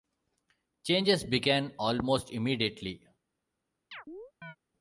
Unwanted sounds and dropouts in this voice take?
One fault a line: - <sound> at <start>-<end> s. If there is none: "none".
- chirp at 3.9-4.6 s